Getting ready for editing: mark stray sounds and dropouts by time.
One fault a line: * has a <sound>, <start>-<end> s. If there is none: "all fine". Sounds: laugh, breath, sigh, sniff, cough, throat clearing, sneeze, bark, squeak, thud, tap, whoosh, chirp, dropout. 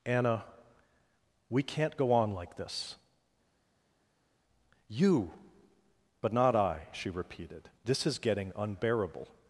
all fine